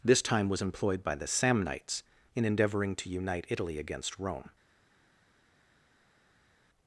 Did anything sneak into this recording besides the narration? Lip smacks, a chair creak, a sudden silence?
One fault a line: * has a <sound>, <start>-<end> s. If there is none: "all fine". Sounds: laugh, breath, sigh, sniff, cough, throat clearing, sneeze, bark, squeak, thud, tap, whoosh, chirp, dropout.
all fine